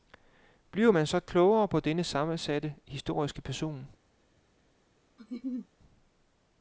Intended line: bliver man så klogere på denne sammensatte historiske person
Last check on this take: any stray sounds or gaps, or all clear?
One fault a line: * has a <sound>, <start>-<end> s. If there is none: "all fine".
* has a laugh, 5.2-5.7 s